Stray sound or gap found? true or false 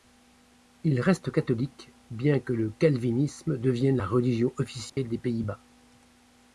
true